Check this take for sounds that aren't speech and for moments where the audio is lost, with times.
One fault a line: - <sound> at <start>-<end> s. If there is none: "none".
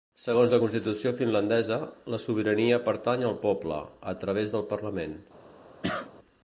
- cough at 5.8-6.1 s